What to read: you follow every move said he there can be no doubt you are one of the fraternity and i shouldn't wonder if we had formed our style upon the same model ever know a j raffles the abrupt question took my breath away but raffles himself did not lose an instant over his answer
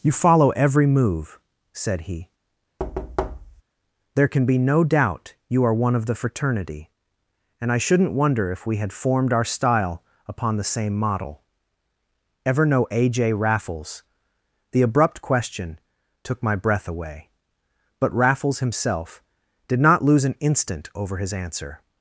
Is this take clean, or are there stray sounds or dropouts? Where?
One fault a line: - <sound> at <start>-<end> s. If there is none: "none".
- thud at 2.8-3.6 s